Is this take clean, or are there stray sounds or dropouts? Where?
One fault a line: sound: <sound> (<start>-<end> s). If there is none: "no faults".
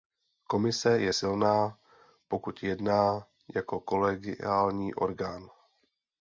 no faults